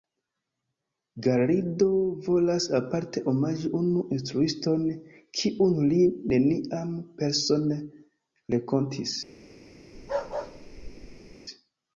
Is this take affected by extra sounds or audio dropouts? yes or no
yes